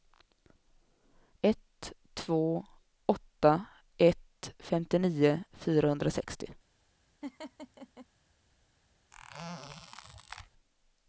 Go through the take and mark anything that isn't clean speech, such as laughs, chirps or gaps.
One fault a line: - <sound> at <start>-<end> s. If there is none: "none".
- laugh at 7.2-8.1 s
- squeak at 9.1-10.5 s